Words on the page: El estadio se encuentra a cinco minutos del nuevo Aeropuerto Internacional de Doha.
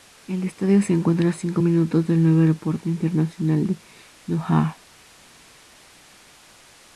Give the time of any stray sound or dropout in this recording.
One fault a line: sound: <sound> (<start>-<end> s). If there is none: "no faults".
no faults